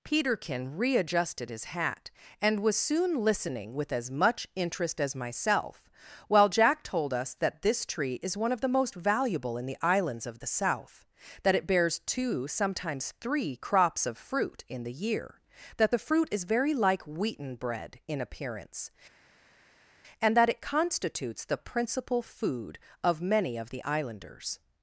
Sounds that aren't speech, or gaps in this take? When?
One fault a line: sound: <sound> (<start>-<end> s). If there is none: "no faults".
no faults